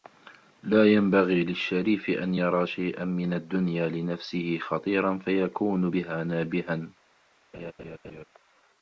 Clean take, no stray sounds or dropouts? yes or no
no